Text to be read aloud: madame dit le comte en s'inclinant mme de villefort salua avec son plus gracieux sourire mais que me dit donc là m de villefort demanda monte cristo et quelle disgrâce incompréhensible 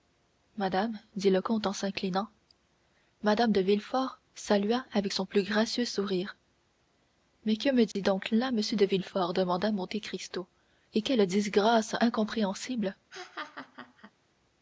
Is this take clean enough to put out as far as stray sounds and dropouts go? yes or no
no